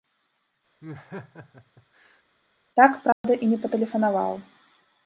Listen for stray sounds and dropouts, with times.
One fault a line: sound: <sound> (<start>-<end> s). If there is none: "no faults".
sound: laugh (0.8-2.2 s)
sound: dropout (3.1-3.2 s)